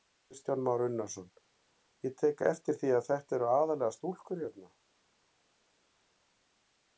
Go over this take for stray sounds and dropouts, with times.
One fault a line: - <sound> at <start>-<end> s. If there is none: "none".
none